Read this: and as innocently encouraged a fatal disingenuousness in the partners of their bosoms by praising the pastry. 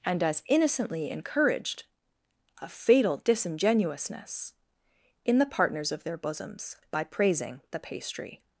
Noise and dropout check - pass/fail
pass